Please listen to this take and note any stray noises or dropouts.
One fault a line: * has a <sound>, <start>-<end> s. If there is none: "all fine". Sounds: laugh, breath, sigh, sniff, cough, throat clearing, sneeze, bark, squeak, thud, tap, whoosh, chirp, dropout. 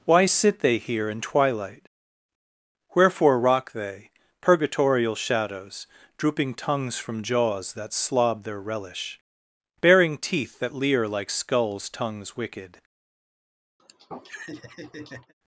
* has a laugh, 13.8-15.3 s